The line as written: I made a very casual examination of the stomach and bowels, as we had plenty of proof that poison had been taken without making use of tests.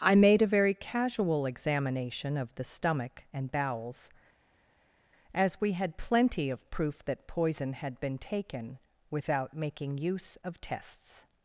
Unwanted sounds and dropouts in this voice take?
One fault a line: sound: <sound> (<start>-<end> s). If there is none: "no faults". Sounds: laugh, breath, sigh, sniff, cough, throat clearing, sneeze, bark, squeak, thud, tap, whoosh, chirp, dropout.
no faults